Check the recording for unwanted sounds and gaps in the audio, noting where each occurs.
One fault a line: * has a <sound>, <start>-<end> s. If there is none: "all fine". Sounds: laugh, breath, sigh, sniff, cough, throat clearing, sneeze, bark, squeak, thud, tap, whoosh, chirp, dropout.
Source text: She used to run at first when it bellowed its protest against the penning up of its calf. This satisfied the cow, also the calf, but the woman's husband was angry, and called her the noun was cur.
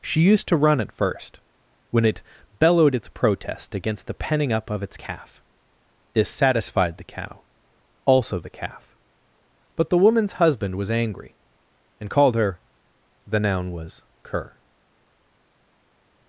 all fine